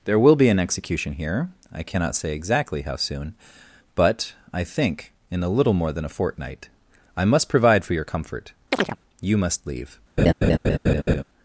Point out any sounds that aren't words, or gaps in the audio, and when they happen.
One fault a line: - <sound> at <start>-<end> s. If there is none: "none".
- chirp at 8.7-9.0 s
- laugh at 10.2-11.2 s